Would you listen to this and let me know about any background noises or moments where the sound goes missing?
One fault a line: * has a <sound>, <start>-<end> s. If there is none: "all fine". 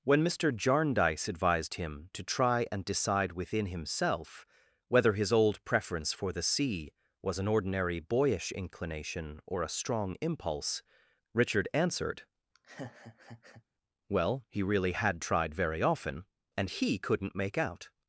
* has a laugh, 12.5-13.6 s